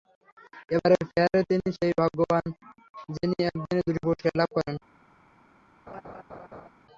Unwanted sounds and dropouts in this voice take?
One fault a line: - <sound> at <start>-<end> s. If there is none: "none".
- laugh at 5.9-6.7 s